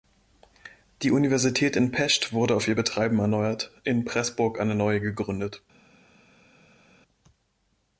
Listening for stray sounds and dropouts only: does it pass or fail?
pass